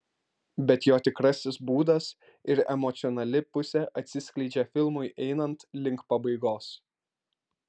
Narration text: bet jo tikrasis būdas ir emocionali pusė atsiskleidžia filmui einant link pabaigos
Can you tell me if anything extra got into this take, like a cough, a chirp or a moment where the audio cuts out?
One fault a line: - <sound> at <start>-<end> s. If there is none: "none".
none